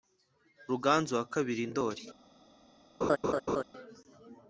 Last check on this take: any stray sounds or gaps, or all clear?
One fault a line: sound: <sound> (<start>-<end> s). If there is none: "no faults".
sound: laugh (3.0-3.6 s)